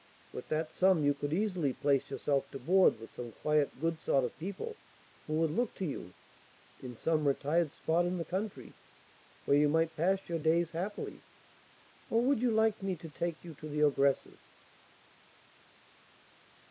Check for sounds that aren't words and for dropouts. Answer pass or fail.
pass